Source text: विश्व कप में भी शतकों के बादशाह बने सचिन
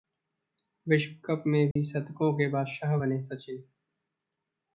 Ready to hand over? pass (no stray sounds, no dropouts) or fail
fail